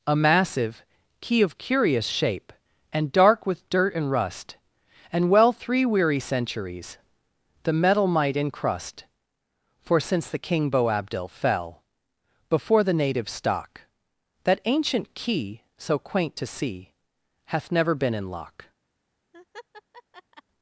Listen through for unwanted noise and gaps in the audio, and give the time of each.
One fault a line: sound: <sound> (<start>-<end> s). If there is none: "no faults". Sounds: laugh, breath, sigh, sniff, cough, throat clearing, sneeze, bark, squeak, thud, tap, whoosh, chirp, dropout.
sound: laugh (19.3-20.4 s)